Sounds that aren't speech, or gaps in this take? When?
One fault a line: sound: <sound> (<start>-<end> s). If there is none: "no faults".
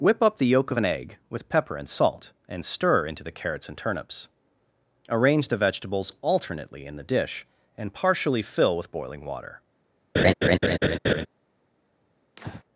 sound: laugh (10.1-11.3 s)
sound: breath (12.4-12.6 s)